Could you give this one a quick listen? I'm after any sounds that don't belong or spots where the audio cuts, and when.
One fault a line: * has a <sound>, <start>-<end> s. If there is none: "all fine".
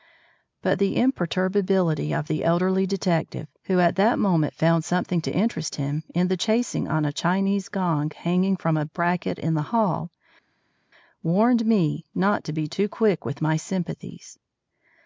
all fine